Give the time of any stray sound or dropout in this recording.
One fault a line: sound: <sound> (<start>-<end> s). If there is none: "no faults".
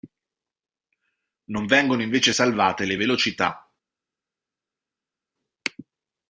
no faults